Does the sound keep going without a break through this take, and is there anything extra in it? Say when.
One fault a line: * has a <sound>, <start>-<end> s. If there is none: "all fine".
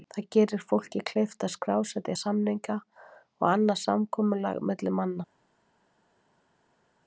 all fine